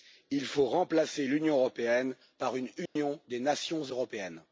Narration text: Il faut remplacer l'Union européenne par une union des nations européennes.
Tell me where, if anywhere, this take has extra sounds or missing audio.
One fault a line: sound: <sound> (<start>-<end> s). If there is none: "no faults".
sound: dropout (2.9-3.0 s)